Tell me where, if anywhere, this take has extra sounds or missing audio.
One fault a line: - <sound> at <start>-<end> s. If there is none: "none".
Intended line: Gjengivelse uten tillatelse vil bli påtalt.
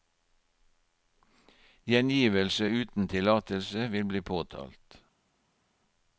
none